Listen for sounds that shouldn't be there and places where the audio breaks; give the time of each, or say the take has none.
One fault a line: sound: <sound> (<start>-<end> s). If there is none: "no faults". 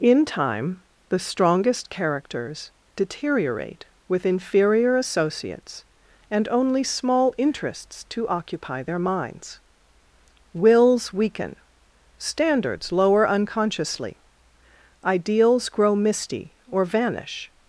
no faults